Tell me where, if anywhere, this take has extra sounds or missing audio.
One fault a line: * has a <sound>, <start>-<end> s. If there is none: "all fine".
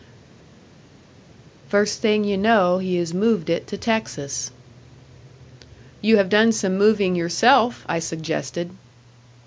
all fine